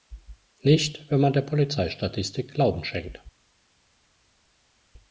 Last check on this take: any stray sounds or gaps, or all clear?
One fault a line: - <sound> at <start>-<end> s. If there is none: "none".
none